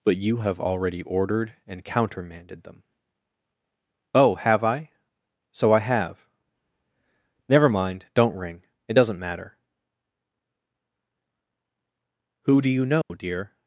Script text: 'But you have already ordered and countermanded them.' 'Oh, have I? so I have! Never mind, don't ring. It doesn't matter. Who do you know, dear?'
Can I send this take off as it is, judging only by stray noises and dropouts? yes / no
no